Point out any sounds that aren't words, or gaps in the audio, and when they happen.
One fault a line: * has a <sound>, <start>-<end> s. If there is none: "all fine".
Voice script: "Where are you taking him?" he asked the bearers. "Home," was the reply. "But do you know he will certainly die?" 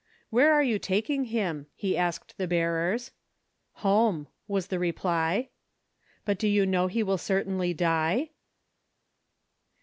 all fine